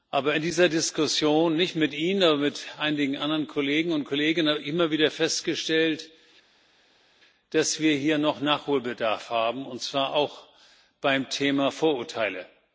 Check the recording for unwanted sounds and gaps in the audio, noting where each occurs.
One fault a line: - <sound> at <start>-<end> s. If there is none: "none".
none